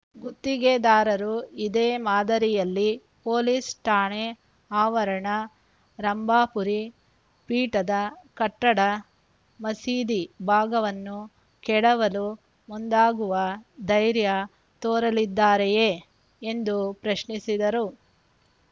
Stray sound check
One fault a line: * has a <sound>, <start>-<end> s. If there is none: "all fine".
all fine